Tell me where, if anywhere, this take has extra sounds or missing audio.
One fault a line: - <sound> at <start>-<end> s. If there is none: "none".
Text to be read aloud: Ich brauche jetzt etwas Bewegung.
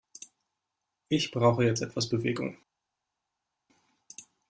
none